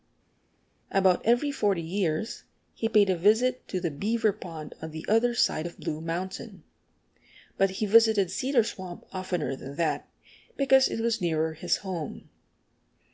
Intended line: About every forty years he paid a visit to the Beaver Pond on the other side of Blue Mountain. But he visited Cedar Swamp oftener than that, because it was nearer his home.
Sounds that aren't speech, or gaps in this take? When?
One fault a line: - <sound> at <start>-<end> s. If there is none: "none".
none